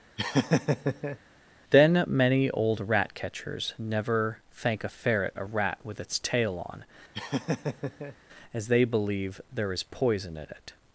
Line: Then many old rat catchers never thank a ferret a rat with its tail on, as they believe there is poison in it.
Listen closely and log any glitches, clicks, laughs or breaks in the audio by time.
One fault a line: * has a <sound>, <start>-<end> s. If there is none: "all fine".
* has a laugh, 0.2-1.2 s
* has a laugh, 7.1-8.2 s